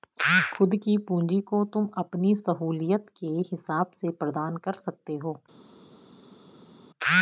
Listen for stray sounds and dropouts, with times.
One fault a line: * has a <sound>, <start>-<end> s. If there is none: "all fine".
all fine